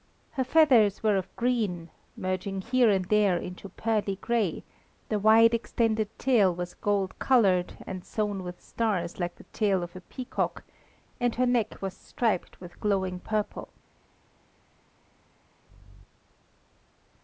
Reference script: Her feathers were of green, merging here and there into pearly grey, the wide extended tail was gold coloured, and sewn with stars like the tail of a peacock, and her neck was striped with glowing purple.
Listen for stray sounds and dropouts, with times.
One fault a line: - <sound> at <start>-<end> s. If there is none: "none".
none